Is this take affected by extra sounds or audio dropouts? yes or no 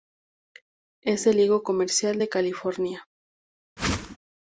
yes